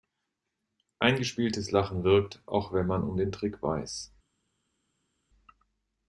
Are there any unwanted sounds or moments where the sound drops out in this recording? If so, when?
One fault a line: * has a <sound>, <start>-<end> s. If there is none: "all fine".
all fine